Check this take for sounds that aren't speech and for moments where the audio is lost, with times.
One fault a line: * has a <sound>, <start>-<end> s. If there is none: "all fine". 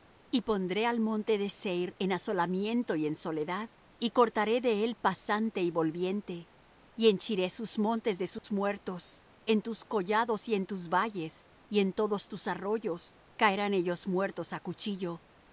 * has a dropout, 8.4-8.4 s